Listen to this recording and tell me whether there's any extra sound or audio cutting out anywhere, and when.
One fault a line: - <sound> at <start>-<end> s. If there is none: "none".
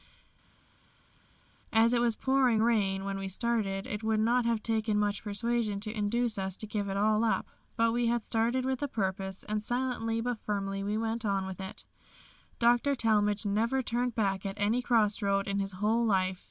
none